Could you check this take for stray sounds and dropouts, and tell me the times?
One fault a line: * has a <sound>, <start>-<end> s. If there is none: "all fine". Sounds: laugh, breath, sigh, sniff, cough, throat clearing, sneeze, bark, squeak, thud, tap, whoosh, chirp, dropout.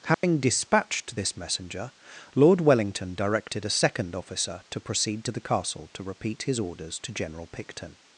* has a dropout, 0.1-0.2 s